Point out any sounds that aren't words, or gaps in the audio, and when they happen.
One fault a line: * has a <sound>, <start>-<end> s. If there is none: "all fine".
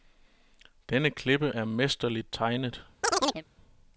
* has a chirp, 3.0-3.4 s